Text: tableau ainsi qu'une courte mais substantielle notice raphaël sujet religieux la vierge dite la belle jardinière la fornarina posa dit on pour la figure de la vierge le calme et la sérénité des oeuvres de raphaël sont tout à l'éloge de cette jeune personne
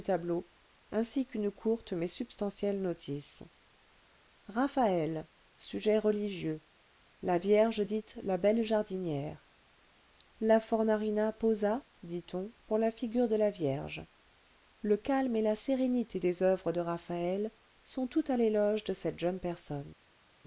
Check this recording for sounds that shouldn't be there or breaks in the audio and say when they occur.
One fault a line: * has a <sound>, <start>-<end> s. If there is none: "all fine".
all fine